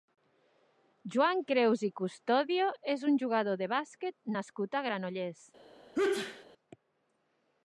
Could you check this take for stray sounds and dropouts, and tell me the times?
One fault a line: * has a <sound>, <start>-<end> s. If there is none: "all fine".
* has a sneeze, 6.0-6.5 s